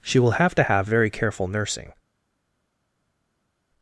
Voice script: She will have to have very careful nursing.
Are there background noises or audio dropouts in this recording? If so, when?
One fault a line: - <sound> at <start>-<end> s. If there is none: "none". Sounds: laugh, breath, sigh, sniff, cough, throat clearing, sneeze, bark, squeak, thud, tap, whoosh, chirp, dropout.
none